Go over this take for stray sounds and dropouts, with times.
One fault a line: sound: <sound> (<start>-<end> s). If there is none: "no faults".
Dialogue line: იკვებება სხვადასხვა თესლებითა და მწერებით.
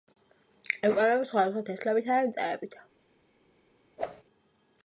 sound: whoosh (4.0-4.2 s)